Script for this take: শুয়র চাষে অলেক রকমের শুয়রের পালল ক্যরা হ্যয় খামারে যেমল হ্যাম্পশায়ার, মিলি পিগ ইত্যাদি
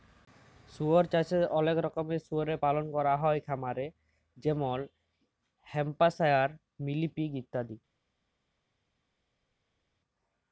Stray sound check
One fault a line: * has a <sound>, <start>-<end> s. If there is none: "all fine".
all fine